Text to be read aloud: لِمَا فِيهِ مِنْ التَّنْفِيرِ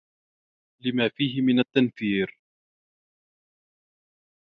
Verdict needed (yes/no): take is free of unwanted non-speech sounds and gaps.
yes